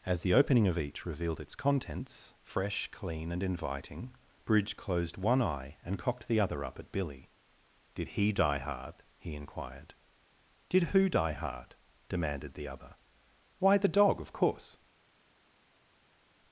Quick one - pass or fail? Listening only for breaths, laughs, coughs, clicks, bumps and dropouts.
pass